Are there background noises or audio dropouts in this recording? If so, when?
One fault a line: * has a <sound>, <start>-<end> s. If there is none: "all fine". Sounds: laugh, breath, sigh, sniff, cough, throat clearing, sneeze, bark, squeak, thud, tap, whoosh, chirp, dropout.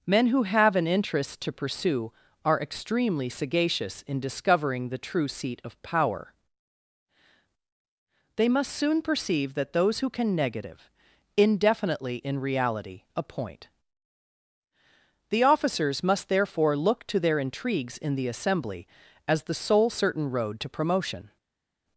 all fine